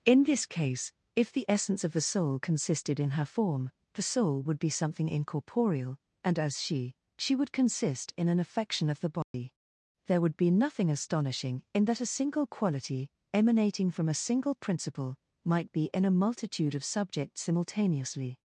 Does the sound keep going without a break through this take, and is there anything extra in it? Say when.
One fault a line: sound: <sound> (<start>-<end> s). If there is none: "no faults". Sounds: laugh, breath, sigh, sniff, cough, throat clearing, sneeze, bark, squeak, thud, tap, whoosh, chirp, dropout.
sound: dropout (9.2-9.3 s)